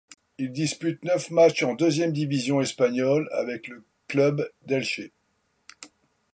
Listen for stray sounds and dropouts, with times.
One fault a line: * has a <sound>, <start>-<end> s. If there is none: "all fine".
all fine